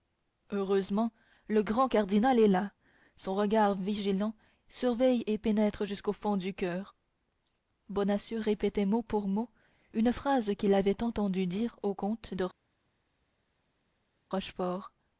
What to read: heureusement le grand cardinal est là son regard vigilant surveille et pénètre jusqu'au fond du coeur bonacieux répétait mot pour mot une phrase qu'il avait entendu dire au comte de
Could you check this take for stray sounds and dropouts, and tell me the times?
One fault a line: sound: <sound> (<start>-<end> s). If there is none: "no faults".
no faults